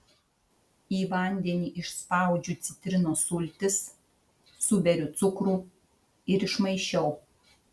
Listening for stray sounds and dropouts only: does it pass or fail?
pass